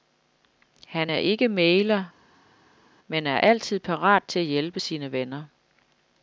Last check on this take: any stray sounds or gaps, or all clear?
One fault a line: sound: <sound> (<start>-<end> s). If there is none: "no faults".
no faults